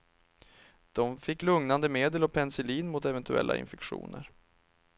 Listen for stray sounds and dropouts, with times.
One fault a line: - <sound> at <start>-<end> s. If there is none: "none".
none